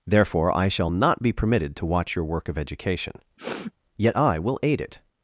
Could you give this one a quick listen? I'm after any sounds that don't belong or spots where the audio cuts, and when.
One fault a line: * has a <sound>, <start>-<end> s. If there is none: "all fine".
* has a sniff, 3.4-3.7 s